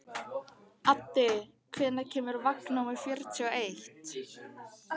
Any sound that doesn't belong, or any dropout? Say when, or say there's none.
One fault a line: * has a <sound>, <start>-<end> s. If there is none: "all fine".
all fine